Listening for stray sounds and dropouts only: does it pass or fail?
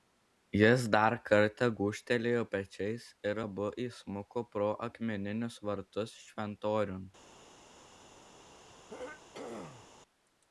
fail